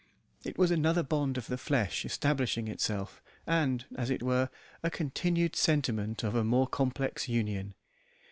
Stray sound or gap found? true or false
false